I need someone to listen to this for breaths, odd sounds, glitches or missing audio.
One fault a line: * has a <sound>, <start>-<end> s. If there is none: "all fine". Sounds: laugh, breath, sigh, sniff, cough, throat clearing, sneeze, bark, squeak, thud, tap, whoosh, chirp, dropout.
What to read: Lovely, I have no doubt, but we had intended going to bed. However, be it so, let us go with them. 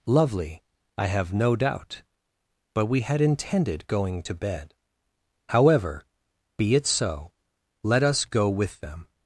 all fine